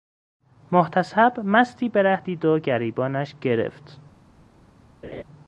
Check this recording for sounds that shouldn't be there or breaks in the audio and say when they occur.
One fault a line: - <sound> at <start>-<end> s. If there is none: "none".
- laugh at 5.0-5.2 s